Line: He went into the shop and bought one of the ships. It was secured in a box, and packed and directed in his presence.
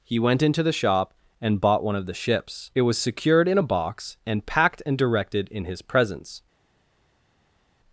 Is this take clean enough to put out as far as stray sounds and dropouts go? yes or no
yes